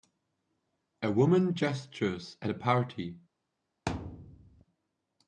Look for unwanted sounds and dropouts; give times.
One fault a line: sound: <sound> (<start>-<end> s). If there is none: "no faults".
sound: thud (3.9-4.6 s)